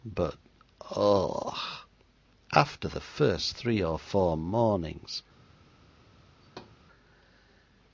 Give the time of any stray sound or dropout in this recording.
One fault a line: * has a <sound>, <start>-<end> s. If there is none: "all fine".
* has a thud, 6.4-6.8 s